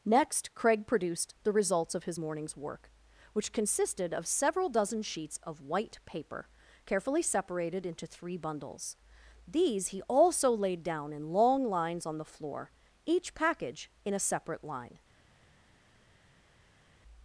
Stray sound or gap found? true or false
false